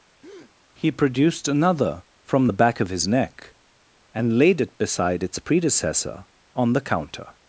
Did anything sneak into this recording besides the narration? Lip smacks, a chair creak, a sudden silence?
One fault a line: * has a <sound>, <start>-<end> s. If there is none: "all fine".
* has a breath, 0.2-0.5 s